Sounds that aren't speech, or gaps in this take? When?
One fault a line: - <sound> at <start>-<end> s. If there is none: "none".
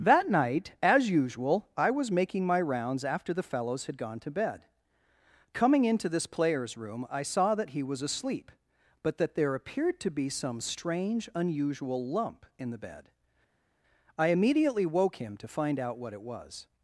none